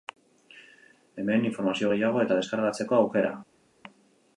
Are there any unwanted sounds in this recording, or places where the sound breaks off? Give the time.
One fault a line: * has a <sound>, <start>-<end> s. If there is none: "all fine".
all fine